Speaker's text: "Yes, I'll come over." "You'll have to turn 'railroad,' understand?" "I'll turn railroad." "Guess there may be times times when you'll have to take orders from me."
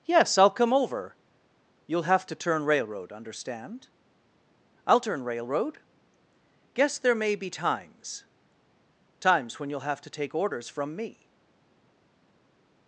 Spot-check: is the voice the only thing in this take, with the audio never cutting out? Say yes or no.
yes